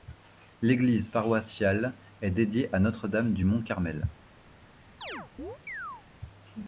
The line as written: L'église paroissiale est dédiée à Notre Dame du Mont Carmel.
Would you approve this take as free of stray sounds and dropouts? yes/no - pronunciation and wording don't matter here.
no